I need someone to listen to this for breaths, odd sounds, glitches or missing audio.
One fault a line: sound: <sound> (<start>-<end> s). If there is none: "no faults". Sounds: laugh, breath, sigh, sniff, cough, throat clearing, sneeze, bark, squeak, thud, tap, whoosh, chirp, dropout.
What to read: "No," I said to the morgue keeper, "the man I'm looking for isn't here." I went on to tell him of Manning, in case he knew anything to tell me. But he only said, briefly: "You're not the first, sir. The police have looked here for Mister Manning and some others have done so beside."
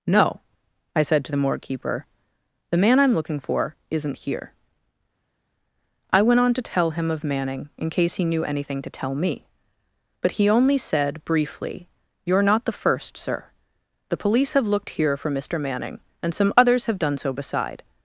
no faults